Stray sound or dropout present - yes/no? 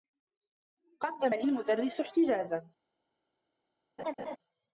yes